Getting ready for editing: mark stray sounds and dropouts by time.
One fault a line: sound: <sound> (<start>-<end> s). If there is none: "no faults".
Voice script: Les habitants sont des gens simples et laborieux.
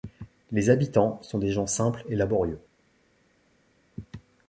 no faults